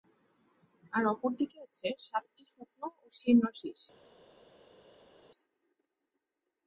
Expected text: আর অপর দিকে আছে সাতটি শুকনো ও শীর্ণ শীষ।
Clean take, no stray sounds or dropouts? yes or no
yes